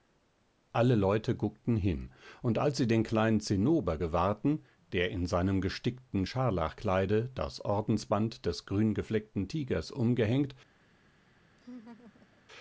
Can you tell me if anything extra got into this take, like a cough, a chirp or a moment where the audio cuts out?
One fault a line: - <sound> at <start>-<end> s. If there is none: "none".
- laugh at 11.6-12.4 s